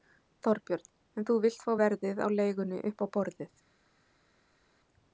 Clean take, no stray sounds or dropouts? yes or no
yes